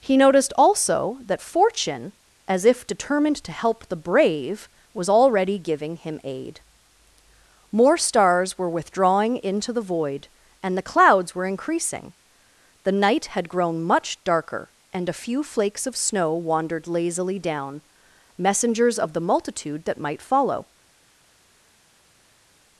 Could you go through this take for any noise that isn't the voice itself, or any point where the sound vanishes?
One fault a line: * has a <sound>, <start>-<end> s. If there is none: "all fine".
all fine